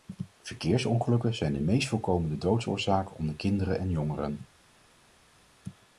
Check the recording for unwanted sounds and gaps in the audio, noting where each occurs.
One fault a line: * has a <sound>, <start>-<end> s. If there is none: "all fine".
all fine